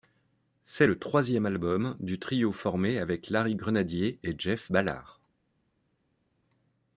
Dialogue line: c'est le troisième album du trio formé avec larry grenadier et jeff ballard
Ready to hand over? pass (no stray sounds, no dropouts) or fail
pass